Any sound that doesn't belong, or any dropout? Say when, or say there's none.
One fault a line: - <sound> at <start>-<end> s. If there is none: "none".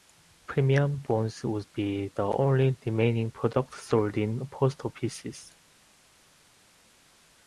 none